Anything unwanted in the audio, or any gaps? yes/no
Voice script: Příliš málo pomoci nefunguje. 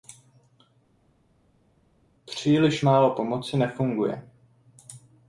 no